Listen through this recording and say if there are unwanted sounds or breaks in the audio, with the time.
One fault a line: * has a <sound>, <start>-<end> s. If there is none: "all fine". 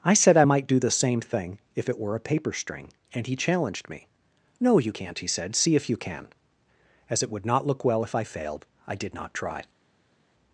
all fine